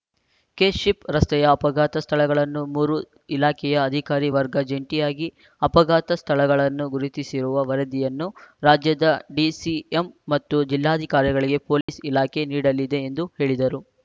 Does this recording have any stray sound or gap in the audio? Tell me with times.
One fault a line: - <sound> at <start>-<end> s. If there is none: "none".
- dropout at 11.8-11.9 s